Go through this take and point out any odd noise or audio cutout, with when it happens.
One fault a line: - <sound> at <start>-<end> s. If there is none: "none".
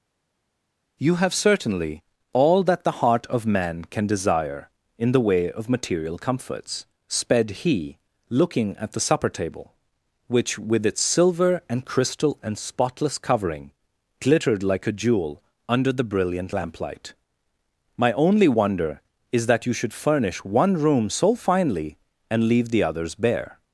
none